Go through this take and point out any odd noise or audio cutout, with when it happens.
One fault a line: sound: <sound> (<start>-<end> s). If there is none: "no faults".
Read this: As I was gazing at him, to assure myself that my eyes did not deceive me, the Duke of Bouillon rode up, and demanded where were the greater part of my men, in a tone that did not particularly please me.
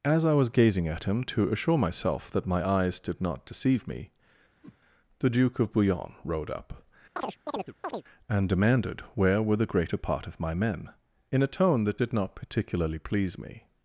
sound: whoosh (4.6-4.8 s)
sound: chirp (7.2-8.0 s)